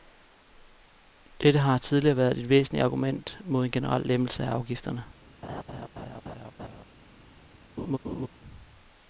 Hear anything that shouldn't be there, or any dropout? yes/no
yes